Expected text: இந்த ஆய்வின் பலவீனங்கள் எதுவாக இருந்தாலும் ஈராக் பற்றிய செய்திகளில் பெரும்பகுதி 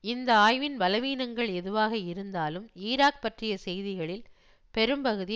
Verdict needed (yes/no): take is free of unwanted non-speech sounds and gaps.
yes